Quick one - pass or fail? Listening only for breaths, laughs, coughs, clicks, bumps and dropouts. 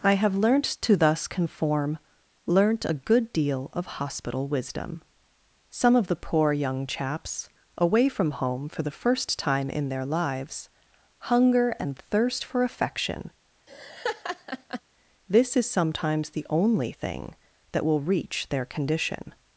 fail